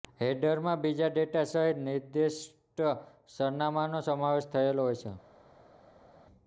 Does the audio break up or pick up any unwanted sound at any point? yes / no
no